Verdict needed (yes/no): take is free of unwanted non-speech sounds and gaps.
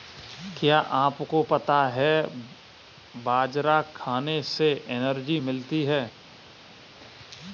yes